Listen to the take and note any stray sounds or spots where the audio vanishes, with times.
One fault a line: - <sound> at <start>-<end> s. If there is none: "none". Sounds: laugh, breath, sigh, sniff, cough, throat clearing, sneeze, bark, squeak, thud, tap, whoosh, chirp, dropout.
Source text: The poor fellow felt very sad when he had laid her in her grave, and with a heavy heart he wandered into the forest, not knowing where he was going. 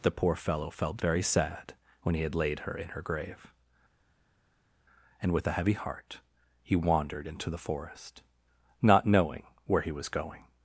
none